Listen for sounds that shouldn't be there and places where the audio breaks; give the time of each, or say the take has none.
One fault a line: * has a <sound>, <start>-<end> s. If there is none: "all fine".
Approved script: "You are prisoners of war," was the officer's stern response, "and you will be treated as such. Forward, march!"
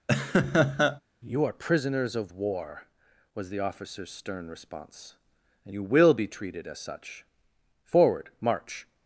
* has a laugh, 0.1-1.0 s